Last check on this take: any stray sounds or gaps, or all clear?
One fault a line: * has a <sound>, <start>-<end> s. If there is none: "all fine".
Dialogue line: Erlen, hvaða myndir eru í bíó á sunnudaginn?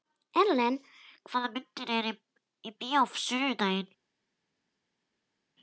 all fine